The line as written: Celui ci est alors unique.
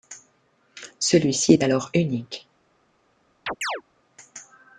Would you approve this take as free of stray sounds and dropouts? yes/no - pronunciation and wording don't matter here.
no